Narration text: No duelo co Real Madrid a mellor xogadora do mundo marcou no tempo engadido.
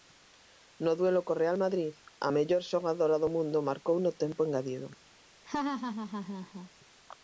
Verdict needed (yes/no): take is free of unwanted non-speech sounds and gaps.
no